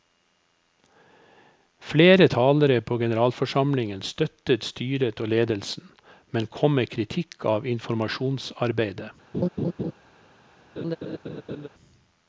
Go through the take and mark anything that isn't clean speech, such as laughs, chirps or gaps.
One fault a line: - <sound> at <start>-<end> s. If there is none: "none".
- laugh at 9.3-9.9 s
- laugh at 10.8-11.7 s